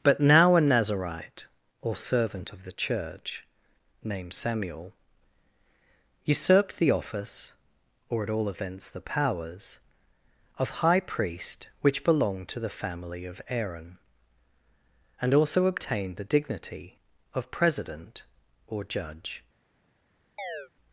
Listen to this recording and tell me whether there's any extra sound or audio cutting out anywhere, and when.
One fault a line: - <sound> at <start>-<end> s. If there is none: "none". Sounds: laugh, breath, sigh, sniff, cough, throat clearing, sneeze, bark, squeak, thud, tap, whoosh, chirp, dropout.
- chirp at 20.4-20.7 s